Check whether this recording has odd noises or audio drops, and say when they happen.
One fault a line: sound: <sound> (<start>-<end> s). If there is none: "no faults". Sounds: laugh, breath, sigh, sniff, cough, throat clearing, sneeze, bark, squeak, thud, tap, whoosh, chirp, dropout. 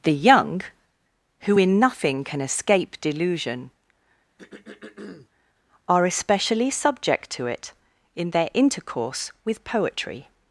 sound: throat clearing (4.4-5.3 s)